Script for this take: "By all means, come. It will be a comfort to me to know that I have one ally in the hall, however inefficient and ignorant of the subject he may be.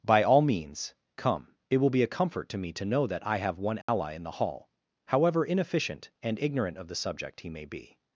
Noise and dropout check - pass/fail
fail